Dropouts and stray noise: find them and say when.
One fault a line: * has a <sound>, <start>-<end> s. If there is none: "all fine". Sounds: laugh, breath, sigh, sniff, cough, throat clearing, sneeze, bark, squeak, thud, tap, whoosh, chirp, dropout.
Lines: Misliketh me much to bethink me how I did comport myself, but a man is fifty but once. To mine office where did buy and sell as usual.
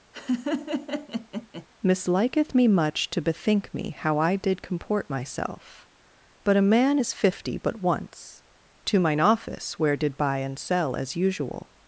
* has a laugh, 0.1-1.7 s